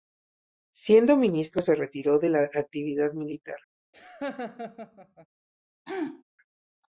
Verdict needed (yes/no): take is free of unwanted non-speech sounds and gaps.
no